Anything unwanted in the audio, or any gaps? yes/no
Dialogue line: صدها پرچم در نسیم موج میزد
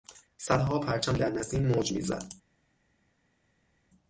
no